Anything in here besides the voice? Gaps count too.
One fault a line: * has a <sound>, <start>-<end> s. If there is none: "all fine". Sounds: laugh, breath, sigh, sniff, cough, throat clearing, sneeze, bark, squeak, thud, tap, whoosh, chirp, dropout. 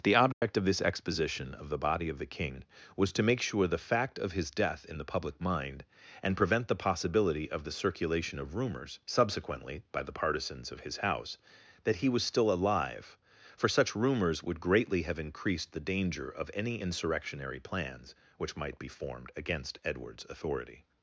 * has a dropout, 0.3-0.4 s